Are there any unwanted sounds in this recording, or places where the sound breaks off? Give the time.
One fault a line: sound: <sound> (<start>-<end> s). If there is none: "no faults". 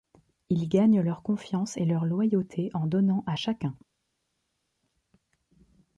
no faults